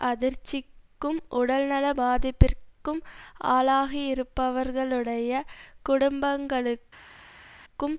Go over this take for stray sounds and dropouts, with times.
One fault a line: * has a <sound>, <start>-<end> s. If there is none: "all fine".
all fine